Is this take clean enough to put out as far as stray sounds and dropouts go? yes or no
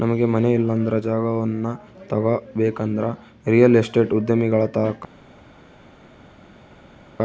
yes